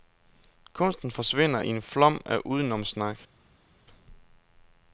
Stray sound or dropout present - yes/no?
no